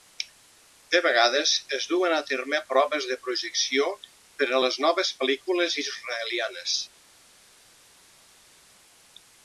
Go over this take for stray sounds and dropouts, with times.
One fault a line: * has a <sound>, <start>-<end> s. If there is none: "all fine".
all fine